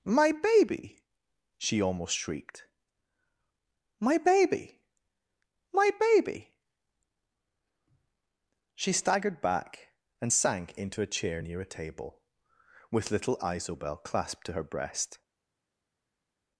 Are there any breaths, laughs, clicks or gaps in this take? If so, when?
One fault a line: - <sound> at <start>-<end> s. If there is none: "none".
none